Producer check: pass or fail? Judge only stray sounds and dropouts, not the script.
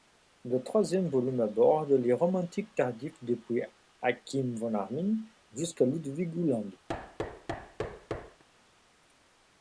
fail